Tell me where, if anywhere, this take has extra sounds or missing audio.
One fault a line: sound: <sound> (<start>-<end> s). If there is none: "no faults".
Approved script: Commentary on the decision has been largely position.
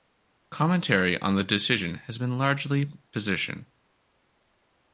no faults